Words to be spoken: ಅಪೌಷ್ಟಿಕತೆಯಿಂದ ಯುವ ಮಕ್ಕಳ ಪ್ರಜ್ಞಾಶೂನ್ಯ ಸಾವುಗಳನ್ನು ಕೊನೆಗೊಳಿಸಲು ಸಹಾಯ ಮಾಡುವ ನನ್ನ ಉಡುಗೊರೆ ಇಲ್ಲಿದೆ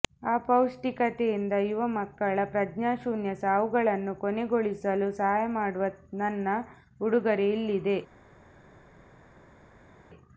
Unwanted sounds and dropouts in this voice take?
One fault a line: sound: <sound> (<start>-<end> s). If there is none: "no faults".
no faults